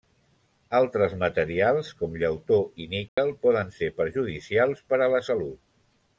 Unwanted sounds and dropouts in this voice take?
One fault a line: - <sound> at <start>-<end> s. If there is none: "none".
- dropout at 3.1-3.2 s